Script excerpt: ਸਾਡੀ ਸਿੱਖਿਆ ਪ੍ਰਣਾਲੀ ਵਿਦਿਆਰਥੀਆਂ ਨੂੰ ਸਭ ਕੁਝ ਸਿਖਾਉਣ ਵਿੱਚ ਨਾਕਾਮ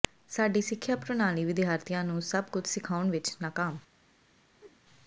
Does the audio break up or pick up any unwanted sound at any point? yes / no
yes